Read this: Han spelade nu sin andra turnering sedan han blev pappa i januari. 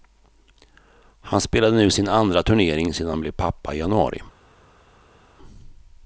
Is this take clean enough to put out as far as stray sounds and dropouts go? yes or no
yes